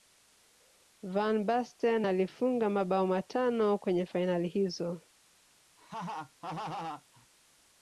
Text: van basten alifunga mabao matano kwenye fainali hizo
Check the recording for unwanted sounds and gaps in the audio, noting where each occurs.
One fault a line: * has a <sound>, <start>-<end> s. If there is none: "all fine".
* has a laugh, 5.8-7.3 s